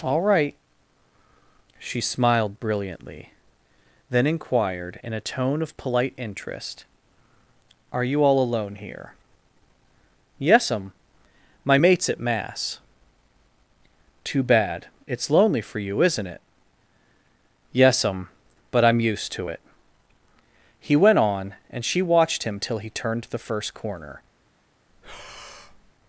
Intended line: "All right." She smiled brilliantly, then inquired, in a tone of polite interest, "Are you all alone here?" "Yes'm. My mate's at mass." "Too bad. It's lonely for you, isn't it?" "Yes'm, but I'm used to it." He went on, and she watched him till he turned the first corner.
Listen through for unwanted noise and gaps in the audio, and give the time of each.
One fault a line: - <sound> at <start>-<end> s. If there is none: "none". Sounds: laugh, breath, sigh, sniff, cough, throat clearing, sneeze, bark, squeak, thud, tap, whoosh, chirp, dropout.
- breath at 24.9-25.9 s